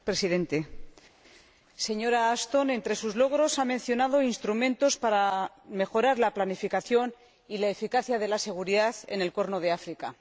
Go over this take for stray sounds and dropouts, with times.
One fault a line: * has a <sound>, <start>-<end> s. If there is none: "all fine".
all fine